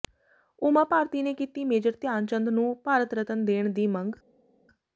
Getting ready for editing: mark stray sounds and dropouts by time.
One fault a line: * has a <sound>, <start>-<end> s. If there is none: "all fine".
all fine